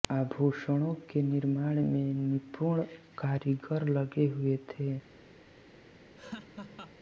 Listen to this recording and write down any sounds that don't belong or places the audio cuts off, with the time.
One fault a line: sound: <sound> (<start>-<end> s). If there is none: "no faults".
sound: laugh (6.2-7.0 s)